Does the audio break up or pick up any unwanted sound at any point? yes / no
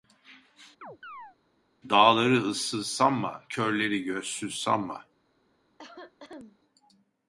yes